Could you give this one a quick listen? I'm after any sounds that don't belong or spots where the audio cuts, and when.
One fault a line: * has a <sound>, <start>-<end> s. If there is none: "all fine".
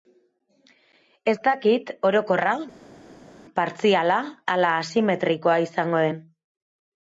all fine